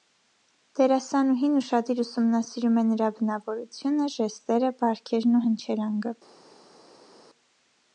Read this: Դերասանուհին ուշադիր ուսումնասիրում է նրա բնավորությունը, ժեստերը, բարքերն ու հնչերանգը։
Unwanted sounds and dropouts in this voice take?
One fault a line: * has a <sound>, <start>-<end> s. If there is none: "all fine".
all fine